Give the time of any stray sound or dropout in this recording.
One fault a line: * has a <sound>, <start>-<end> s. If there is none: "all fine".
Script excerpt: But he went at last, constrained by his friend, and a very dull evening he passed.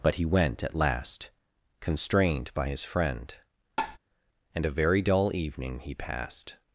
* has a tap, 3.8-4.0 s